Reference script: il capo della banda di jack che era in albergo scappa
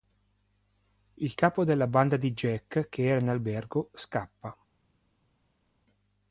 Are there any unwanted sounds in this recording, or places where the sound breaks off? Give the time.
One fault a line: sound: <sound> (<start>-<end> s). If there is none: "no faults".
no faults